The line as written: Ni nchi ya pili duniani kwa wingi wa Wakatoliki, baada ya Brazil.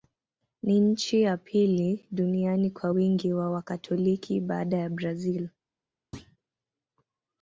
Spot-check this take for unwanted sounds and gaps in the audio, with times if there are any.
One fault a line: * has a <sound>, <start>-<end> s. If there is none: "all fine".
* has a thud, 6.1-6.4 s